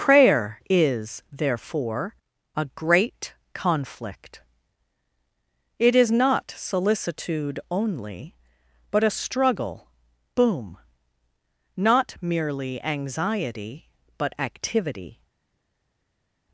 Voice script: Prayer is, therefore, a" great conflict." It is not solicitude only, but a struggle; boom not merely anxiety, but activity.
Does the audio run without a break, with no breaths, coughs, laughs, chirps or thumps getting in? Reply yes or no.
yes